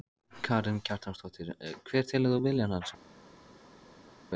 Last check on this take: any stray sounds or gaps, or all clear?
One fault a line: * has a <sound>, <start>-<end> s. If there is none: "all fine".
all fine